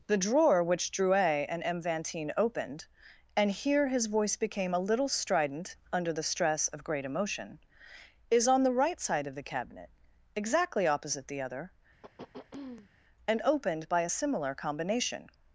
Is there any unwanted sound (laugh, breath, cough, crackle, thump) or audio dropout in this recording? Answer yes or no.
yes